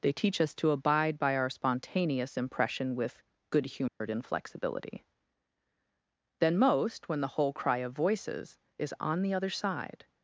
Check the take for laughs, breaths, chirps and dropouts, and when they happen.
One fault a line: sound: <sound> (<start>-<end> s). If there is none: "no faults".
sound: dropout (3.9-4.0 s)